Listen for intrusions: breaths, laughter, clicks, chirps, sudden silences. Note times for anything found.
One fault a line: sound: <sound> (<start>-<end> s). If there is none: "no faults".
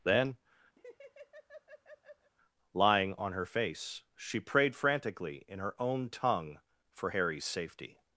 sound: laugh (0.8-2.3 s)